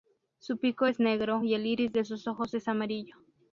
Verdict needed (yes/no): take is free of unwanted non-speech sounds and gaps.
yes